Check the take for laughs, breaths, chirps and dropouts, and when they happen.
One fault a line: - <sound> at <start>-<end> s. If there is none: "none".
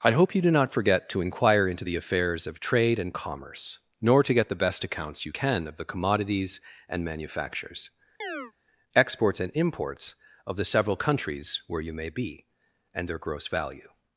- chirp at 8.2-8.5 s